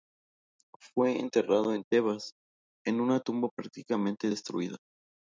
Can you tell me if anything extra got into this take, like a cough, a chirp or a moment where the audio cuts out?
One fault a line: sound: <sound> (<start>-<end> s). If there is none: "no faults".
no faults